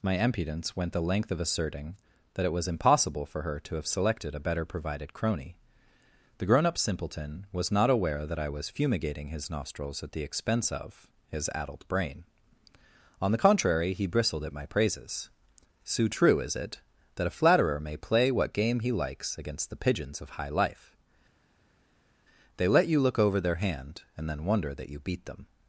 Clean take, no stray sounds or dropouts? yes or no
yes